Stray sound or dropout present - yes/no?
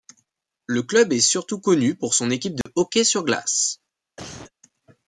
yes